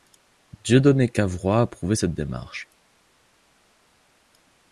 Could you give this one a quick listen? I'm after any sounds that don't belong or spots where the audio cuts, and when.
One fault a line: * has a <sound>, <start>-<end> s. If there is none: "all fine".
all fine